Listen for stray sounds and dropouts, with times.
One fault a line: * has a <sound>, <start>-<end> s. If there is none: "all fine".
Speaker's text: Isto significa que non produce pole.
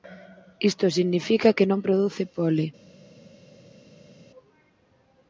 all fine